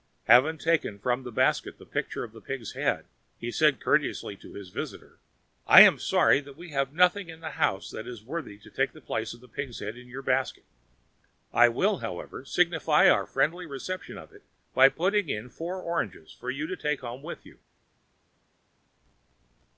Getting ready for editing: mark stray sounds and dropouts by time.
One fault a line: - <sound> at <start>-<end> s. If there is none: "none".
none